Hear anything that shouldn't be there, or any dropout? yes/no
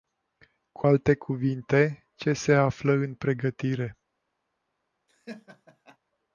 yes